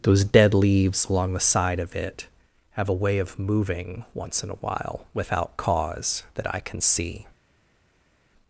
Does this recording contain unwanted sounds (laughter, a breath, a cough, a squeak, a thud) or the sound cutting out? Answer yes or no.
no